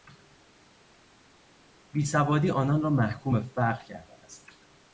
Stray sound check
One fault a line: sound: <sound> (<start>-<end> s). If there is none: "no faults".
no faults